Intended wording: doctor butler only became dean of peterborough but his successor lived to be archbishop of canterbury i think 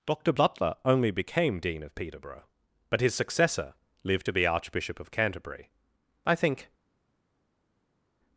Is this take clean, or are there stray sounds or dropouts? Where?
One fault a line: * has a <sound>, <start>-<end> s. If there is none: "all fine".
all fine